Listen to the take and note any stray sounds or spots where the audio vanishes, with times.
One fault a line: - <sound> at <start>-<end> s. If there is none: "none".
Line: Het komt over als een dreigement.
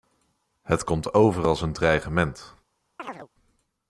- chirp at 3.0-3.3 s